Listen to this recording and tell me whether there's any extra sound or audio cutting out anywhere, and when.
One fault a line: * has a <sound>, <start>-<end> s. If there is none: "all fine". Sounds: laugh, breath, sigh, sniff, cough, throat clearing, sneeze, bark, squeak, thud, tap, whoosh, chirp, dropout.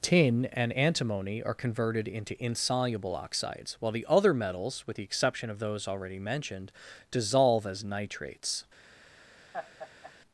* has a laugh, 9.5-10.1 s